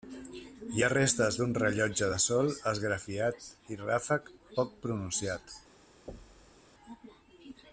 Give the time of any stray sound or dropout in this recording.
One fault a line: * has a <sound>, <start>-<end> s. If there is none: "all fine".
* has a thud, 6.1-6.6 s